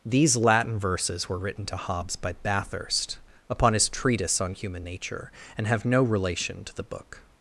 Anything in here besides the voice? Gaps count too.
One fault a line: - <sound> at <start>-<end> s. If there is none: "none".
none